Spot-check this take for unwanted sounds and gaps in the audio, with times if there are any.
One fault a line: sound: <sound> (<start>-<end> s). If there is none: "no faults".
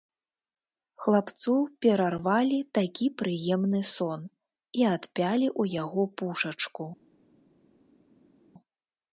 no faults